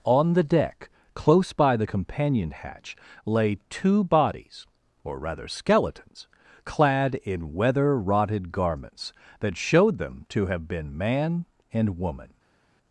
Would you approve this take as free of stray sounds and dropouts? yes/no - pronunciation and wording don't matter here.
yes